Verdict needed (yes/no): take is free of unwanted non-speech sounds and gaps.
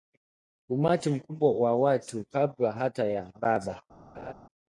no